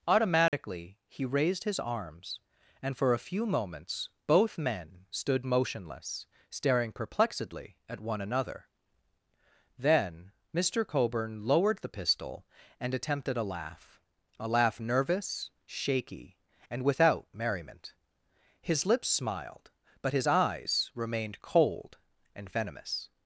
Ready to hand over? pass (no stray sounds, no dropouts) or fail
fail